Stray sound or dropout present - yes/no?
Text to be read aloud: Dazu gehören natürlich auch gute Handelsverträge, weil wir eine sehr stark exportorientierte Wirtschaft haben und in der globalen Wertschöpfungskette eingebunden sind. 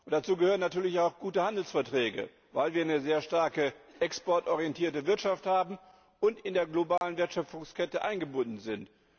yes